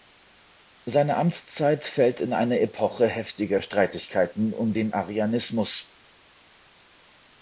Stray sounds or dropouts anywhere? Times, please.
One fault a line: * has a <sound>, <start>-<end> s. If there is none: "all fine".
all fine